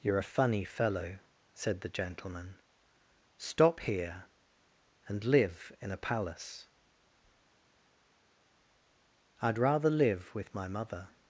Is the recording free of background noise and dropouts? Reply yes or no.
yes